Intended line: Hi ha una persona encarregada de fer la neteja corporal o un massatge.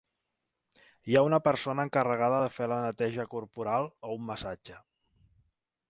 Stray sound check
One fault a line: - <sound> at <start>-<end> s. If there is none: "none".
none